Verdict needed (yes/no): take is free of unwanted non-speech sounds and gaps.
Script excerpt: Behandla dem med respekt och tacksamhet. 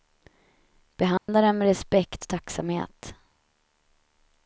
no